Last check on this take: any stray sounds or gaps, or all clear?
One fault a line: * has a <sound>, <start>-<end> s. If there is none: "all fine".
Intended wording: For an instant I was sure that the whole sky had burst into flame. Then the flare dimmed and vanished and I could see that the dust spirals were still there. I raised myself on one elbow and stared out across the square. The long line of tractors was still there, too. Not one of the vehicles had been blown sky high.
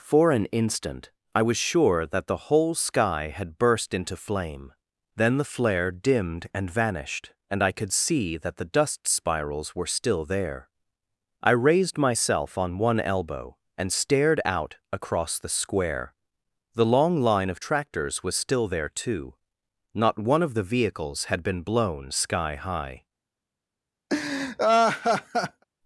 * has a laugh, 24.1-25.6 s